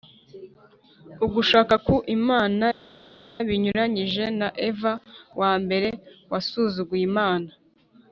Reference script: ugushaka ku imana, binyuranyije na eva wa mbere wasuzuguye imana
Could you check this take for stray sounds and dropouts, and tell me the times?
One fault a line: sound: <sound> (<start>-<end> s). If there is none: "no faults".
no faults